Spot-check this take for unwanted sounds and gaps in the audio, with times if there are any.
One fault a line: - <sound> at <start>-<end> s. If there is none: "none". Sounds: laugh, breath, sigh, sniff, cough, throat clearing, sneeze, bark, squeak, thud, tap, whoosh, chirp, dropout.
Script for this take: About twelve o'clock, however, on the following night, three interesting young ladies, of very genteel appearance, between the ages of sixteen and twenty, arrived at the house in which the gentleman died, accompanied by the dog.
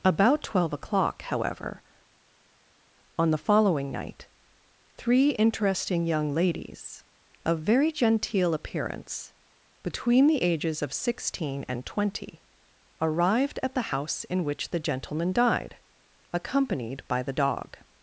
none